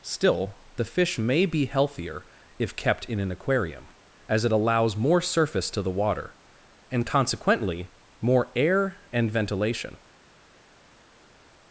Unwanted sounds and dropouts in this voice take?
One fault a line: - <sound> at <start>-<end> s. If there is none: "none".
none